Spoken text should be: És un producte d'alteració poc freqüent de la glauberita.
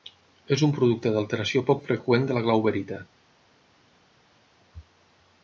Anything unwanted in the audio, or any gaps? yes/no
no